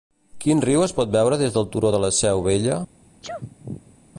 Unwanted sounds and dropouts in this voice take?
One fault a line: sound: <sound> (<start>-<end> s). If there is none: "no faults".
sound: sneeze (3.2-4.0 s)